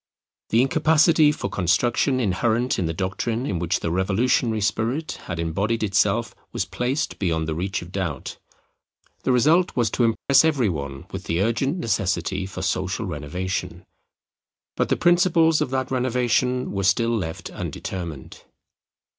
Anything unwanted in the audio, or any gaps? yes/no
yes